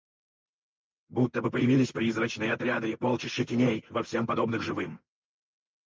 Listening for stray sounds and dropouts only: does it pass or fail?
pass